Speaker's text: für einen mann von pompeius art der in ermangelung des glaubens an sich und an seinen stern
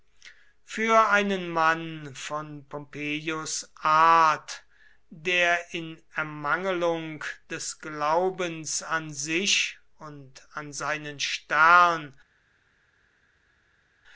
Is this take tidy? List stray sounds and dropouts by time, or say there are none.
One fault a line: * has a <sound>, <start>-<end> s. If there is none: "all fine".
all fine